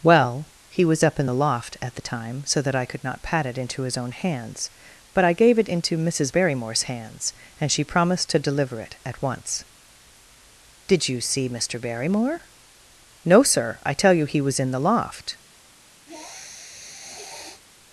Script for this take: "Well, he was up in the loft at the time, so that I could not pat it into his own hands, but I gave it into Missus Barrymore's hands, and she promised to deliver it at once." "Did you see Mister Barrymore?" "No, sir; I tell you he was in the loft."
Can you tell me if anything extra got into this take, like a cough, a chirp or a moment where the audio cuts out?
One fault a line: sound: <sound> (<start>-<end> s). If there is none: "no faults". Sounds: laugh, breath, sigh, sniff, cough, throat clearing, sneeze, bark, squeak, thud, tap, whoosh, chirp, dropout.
sound: sniff (16.1-17.6 s)